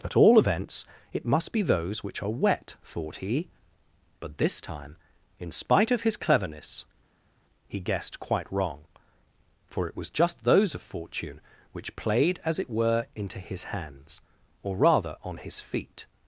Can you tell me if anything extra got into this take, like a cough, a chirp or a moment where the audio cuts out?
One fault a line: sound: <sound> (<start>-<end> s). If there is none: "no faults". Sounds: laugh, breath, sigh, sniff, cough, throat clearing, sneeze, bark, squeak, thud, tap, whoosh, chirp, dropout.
no faults